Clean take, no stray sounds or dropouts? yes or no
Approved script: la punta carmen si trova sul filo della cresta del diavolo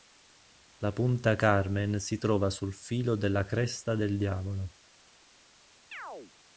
no